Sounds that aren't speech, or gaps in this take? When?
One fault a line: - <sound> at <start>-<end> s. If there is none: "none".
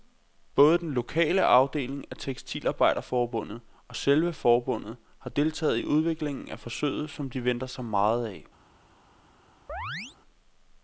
- chirp at 9.7-10.2 s